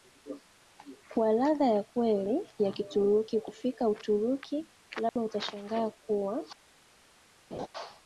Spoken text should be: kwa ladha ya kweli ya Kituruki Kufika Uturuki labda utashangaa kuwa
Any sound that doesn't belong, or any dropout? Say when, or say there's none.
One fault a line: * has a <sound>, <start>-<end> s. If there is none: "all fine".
* has a dropout, 5.1-5.2 s
* has a laugh, 7.5-7.7 s